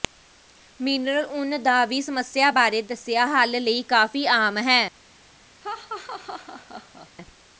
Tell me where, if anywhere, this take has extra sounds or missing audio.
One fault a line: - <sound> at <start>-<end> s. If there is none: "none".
- laugh at 5.6-7.1 s